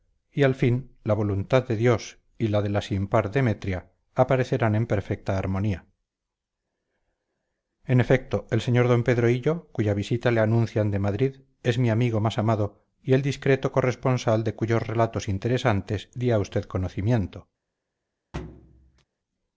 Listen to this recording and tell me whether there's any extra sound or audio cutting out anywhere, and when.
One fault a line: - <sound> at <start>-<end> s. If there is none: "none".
- thud at 18.3-19.0 s